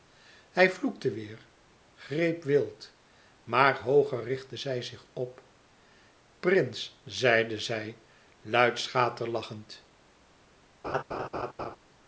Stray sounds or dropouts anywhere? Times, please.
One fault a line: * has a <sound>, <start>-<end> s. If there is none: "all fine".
* has a laugh, 10.8-11.8 s